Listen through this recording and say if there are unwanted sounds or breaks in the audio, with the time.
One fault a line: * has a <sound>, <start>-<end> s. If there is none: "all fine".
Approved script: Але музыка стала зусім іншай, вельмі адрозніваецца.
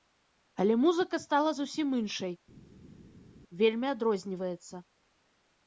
all fine